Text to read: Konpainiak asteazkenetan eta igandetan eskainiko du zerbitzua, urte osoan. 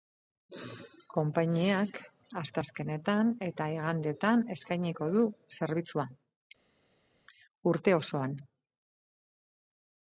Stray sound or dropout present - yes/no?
no